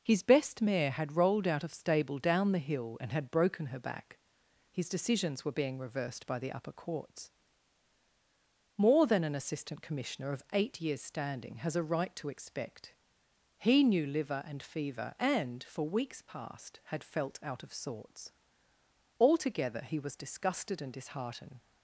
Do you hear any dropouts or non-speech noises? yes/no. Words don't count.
no